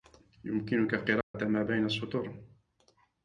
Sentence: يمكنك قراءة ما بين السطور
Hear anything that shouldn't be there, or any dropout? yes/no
yes